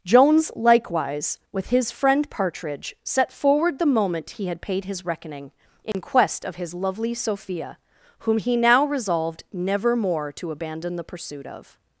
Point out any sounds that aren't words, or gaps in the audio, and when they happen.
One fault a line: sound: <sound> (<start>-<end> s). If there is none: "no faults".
sound: dropout (5.9-5.9 s)